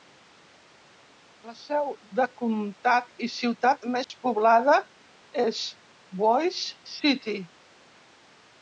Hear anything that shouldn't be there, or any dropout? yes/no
yes